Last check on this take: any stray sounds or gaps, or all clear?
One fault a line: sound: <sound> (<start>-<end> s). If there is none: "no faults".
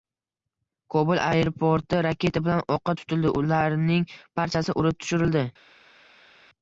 no faults